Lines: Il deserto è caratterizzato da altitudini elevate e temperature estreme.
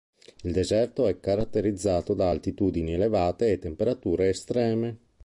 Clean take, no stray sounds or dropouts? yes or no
yes